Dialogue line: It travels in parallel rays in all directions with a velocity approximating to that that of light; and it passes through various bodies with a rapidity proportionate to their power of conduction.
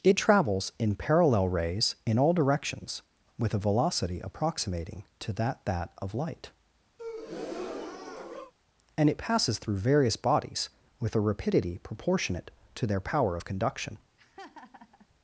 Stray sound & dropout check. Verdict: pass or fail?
fail